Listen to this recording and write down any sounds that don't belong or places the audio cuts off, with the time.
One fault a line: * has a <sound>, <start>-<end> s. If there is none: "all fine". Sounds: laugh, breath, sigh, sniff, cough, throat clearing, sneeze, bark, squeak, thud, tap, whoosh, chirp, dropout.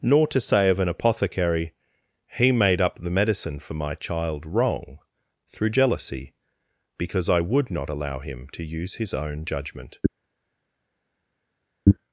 all fine